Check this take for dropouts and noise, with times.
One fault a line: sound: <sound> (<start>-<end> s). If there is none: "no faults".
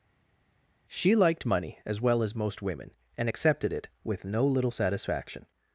no faults